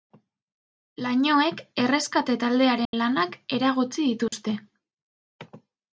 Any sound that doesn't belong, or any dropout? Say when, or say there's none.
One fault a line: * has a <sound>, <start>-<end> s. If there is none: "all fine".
* has a dropout, 2.8-2.9 s
* has a dropout, 4.3-4.3 s